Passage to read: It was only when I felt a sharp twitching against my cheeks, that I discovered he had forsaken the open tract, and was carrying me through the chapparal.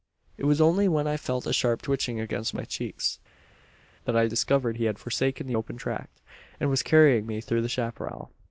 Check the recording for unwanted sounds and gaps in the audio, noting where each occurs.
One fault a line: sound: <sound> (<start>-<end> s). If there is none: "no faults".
no faults